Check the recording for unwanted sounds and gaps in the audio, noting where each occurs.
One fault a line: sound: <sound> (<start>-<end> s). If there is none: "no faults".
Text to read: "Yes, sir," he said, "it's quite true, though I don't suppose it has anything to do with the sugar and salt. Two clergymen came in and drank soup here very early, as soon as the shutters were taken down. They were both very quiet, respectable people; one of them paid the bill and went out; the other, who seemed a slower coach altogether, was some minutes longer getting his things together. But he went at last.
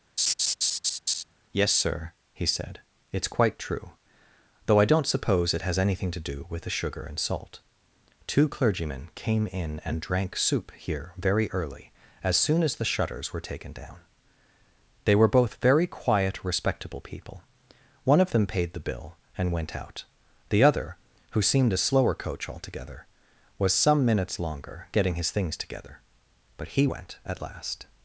sound: laugh (0.2-1.2 s)